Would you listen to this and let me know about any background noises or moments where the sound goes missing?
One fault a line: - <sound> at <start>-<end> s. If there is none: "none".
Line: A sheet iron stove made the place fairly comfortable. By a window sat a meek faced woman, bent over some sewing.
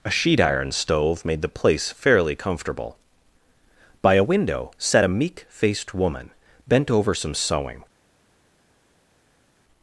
none